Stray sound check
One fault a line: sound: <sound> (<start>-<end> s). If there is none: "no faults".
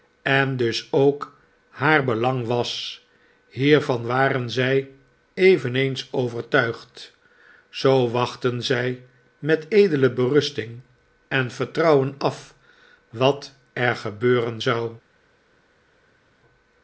no faults